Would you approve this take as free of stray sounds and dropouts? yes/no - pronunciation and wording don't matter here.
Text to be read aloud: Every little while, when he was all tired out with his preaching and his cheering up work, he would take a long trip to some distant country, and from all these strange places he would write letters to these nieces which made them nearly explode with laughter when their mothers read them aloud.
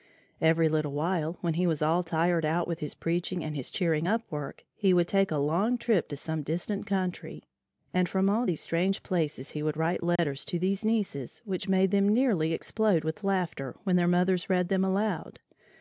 no